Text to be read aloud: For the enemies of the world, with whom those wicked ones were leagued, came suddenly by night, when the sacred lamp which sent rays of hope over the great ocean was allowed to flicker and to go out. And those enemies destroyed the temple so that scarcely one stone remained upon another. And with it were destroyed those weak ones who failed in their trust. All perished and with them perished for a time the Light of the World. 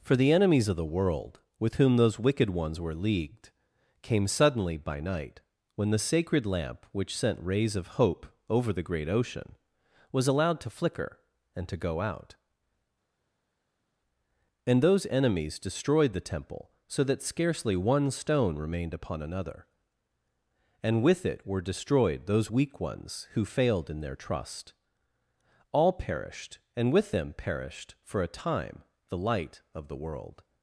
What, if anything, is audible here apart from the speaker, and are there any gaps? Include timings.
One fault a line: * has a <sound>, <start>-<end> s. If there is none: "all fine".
all fine